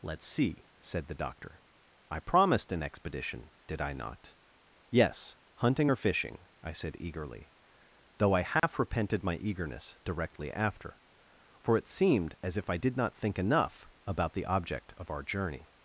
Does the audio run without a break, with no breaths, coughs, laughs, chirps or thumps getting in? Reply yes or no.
no